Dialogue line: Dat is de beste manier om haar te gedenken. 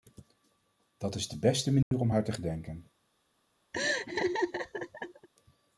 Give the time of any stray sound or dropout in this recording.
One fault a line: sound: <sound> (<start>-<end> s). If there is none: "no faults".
sound: dropout (1.8-1.9 s)
sound: laugh (3.7-5.3 s)